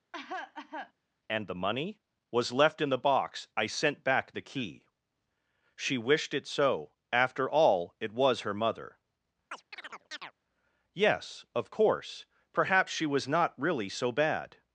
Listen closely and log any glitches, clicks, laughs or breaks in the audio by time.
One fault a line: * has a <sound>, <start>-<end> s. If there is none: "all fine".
* has a cough, 0.1-0.9 s
* has a chirp, 9.5-10.3 s